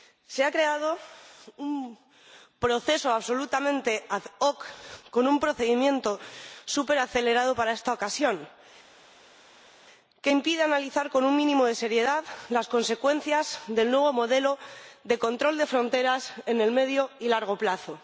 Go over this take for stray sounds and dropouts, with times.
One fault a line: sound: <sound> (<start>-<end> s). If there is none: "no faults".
no faults